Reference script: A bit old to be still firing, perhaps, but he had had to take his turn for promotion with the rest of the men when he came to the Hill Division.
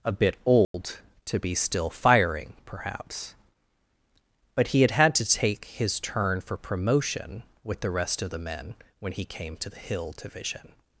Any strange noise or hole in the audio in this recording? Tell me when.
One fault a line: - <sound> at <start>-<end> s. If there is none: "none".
- dropout at 0.6-0.7 s